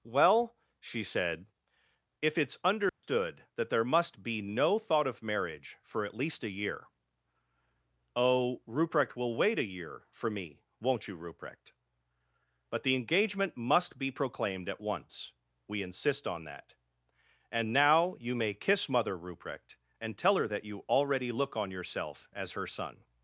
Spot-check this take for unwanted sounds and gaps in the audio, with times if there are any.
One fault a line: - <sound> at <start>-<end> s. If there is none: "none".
- dropout at 2.9-3.0 s